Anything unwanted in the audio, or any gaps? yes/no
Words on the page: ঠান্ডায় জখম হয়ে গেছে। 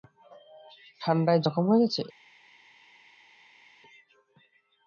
no